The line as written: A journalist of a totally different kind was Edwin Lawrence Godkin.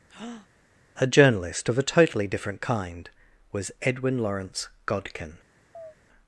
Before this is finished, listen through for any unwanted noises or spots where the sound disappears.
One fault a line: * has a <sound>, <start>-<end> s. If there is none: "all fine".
* has a breath, 0.1-0.5 s
* has a chirp, 5.7-6.0 s